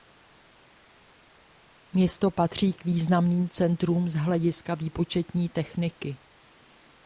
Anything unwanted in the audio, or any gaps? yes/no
no